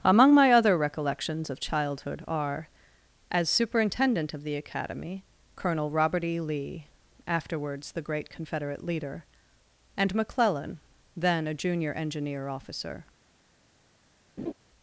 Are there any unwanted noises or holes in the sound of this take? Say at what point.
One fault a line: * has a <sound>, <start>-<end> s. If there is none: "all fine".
* has a laugh, 14.4-14.5 s